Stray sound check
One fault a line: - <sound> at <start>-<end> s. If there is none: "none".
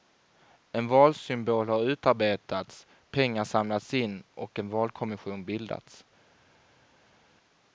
none